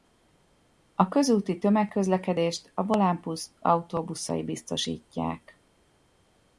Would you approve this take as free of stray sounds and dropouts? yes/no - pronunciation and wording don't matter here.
yes